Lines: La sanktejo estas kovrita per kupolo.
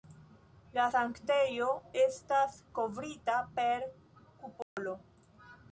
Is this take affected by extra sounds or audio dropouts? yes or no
yes